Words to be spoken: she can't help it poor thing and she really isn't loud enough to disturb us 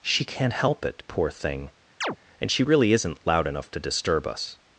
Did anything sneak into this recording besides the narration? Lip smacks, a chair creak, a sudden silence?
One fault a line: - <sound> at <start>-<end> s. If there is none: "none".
- chirp at 2.0-2.2 s